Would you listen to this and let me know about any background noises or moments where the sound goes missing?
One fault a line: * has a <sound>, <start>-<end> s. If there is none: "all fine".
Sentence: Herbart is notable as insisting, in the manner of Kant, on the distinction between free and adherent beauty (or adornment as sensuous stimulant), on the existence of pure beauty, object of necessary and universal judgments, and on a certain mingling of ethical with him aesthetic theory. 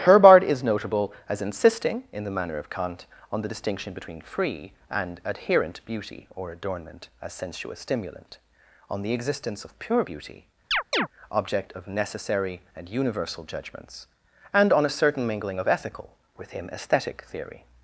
* has a chirp, 10.7-11.1 s